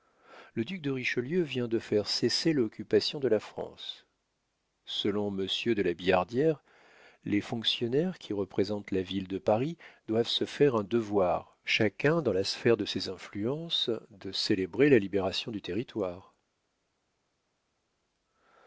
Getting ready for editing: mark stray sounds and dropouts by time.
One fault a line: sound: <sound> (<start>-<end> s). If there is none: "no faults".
no faults